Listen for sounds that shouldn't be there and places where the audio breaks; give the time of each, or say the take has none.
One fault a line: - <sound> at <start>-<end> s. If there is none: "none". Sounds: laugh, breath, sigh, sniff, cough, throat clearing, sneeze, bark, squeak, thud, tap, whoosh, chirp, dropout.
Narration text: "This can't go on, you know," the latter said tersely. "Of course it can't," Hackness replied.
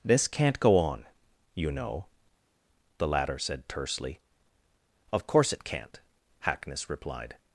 none